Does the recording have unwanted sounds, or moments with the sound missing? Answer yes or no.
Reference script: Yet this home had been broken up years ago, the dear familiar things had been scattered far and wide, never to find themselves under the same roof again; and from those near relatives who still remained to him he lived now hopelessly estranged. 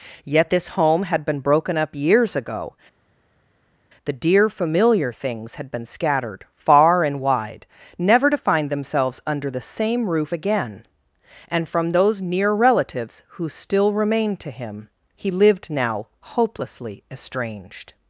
no